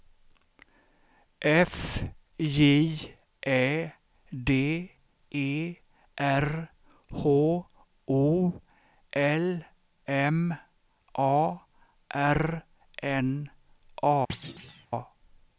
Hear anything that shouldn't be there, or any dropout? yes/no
yes